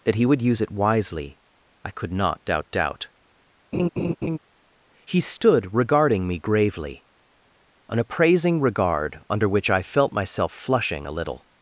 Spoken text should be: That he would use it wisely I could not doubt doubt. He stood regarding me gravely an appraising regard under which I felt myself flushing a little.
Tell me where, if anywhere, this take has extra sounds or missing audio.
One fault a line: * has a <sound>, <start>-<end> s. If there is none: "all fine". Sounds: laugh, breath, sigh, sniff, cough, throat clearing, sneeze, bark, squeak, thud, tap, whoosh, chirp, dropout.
* has a laugh, 3.7-4.4 s